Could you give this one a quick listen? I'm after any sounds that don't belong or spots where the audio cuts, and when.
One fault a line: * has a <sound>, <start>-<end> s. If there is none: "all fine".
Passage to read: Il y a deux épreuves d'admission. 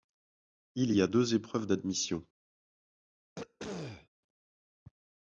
* has a throat clearing, 3.4-4.1 s